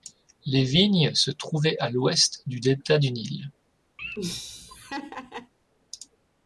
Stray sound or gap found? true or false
true